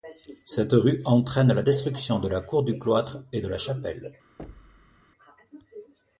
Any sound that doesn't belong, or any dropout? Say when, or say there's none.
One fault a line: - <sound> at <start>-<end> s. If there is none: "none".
- thud at 4.4-5.0 s